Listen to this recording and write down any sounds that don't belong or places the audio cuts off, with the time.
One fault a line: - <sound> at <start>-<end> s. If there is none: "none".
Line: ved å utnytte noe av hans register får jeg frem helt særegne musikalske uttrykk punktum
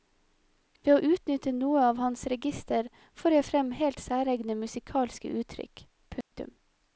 - dropout at 6.2-6.3 s